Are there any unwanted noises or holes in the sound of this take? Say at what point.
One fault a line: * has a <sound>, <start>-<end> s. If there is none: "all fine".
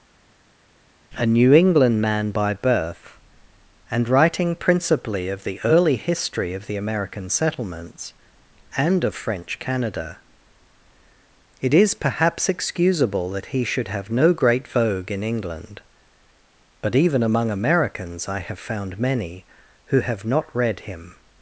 all fine